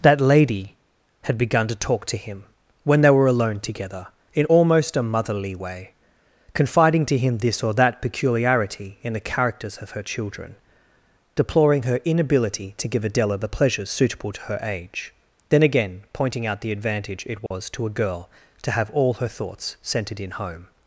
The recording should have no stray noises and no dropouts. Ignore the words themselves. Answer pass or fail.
fail